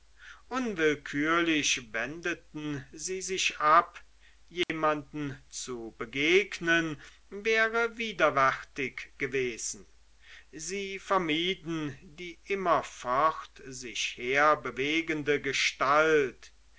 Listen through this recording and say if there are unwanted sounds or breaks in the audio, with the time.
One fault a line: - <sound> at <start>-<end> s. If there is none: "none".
- dropout at 4.6-4.7 s